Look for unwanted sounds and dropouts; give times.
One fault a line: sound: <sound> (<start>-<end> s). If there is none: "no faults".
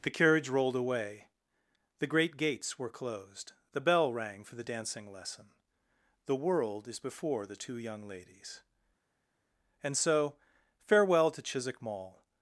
no faults